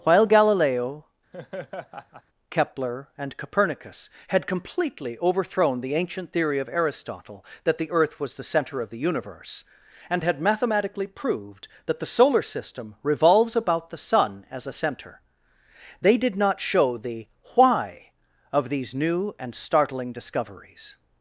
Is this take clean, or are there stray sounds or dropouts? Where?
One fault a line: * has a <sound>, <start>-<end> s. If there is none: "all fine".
* has a laugh, 1.3-2.2 s